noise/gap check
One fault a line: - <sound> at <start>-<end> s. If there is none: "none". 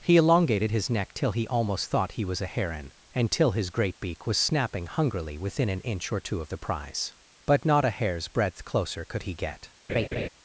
- laugh at 9.9-10.3 s